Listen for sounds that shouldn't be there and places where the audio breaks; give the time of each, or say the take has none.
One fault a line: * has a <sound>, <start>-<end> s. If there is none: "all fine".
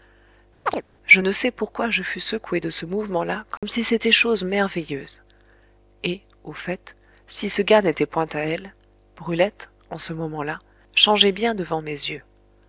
* has a chirp, 0.7-0.8 s
* has a dropout, 3.6-3.6 s